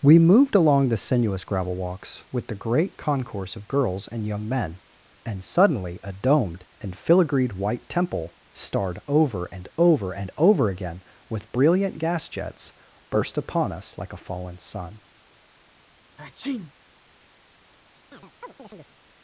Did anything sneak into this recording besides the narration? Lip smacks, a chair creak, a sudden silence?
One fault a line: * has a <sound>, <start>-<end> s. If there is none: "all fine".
* has a sneeze, 16.2-16.7 s
* has a chirp, 18.1-18.9 s